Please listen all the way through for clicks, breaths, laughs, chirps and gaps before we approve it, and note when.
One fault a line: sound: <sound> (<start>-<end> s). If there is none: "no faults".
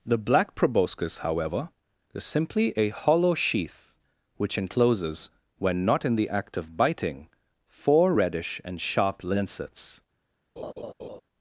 sound: laugh (10.6-11.2 s)